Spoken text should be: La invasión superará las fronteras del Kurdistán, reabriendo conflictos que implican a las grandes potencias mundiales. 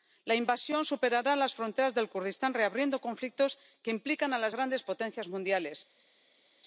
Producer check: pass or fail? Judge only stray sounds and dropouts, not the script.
pass